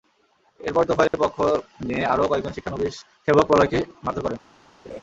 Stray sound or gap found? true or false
true